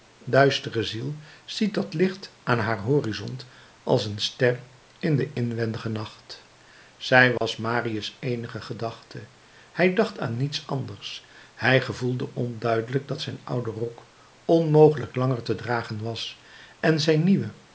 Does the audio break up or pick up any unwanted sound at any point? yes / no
yes